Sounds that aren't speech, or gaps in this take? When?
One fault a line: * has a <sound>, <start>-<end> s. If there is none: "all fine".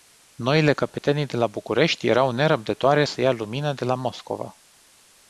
all fine